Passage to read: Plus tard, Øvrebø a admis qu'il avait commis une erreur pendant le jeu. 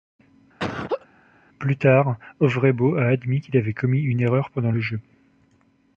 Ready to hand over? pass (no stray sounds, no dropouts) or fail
fail